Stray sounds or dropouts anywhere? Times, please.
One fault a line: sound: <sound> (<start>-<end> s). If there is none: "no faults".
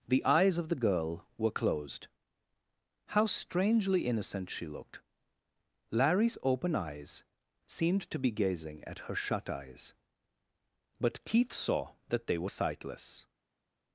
no faults